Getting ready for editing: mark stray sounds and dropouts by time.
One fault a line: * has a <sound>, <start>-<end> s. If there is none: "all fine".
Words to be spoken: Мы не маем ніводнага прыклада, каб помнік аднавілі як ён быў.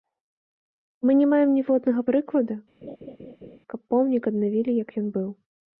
* has a laugh, 2.8-3.6 s